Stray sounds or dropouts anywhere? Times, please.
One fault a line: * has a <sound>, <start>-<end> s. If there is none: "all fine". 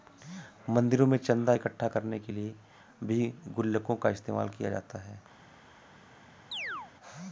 * has a chirp, 6.5-6.9 s